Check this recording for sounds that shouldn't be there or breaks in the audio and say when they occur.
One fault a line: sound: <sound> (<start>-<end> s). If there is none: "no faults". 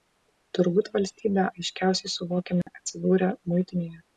sound: dropout (2.6-2.7 s)